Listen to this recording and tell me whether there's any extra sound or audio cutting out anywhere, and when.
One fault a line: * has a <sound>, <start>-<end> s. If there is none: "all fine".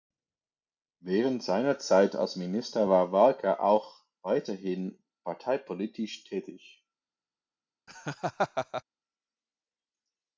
* has a laugh, 7.9-8.8 s